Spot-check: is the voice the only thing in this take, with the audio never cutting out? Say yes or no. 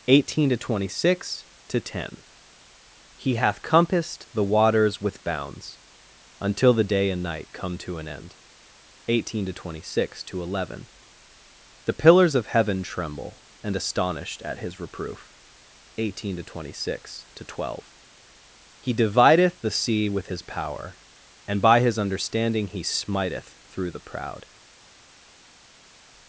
yes